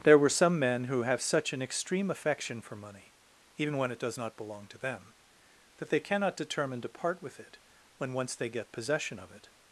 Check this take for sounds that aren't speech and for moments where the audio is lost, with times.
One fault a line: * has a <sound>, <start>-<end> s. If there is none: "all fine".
all fine